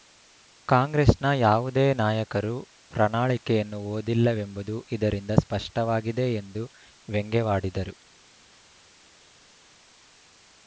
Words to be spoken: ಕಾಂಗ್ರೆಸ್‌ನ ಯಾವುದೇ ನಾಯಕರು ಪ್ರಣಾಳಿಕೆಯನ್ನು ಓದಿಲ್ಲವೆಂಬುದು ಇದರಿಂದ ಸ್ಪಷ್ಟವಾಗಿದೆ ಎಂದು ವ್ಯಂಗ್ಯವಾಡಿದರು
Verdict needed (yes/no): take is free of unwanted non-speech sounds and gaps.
yes